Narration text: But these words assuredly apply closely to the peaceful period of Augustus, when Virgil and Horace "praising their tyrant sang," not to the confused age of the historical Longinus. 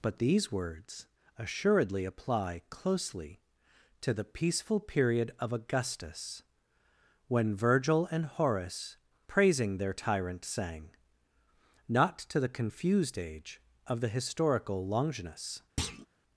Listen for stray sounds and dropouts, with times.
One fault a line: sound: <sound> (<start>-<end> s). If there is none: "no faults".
sound: thud (15.8-16.1 s)